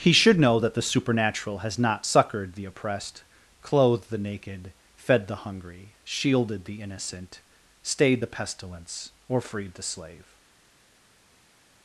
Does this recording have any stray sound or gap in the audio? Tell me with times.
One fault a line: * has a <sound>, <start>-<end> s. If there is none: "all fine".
all fine